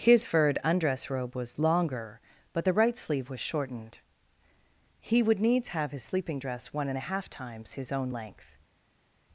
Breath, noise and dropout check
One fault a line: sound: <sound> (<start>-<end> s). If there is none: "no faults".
no faults